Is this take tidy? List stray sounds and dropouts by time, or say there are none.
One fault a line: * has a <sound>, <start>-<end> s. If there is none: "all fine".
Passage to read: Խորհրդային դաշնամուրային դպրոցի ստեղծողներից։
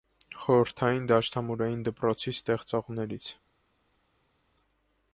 all fine